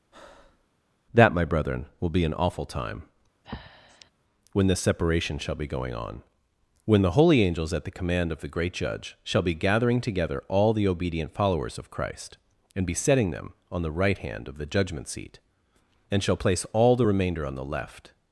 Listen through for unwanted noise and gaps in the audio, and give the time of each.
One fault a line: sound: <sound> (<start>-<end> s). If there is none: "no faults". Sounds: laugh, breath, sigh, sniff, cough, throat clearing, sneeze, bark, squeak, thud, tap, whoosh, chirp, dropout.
sound: breath (0.1-0.7 s)
sound: breath (3.4-4.1 s)